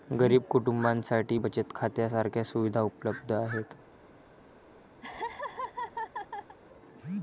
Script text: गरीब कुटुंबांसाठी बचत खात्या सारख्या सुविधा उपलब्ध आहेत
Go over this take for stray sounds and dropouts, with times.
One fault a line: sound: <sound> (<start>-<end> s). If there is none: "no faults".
sound: laugh (5.0-6.6 s)